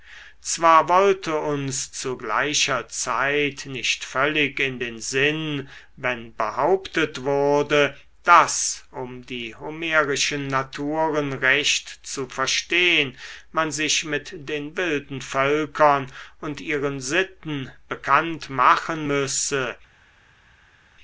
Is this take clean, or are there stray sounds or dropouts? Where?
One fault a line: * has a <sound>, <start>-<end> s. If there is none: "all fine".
all fine